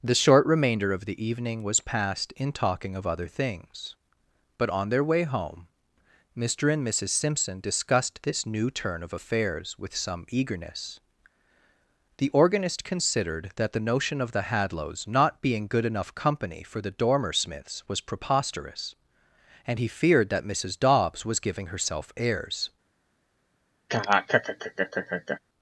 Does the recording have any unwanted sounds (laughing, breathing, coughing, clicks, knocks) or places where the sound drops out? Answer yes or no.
yes